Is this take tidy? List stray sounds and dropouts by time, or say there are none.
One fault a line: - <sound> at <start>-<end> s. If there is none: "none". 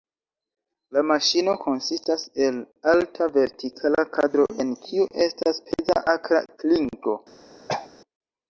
- throat clearing at 7.7-7.9 s